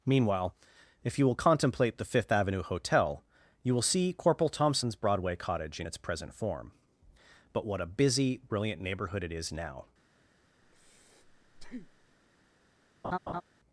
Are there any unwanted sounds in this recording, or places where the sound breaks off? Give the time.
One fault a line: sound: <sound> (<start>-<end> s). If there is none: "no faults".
sound: breath (10.6-12.2 s)
sound: laugh (13.0-13.4 s)